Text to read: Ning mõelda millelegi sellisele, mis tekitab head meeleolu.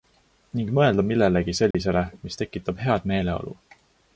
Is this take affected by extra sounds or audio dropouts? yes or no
yes